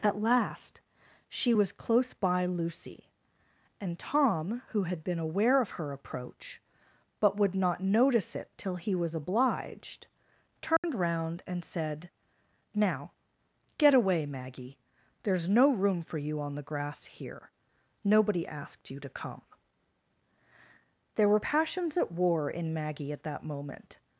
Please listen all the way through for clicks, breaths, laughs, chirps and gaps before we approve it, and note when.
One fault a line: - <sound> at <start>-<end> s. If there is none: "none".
- dropout at 10.8-10.8 s